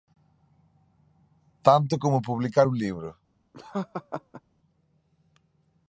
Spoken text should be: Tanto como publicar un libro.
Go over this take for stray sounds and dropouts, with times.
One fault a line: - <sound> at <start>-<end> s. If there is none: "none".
- laugh at 3.5-4.4 s